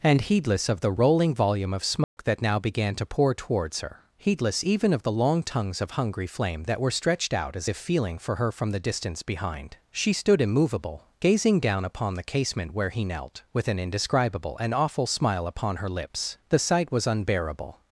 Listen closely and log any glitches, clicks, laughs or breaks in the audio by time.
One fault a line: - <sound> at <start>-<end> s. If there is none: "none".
- dropout at 2.0-2.2 s